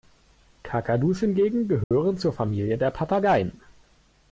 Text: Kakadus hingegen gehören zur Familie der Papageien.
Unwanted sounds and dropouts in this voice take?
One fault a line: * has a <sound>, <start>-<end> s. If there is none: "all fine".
* has a dropout, 1.8-1.9 s